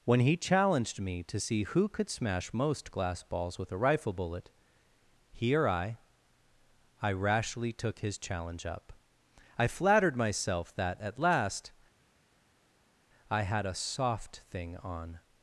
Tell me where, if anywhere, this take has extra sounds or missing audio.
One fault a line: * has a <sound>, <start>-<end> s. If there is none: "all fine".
all fine